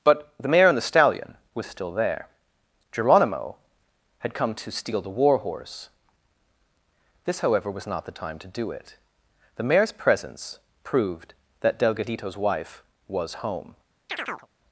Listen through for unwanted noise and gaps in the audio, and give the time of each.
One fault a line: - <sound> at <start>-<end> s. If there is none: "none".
- chirp at 14.1-14.5 s